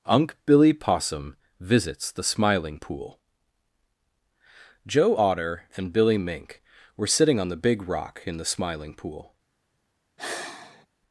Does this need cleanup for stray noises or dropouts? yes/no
yes